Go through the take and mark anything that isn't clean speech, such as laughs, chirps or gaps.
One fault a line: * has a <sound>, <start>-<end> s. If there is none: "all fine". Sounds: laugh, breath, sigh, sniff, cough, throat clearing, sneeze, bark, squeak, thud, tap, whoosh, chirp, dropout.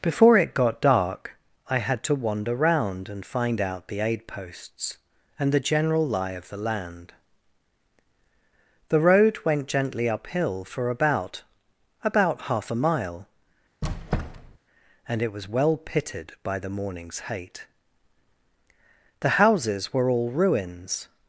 * has a squeak, 13.8-14.6 s